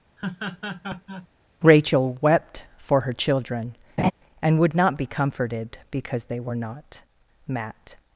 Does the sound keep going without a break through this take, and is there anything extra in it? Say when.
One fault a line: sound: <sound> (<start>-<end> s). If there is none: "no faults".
sound: laugh (0.2-1.3 s)
sound: laugh (4.0-4.1 s)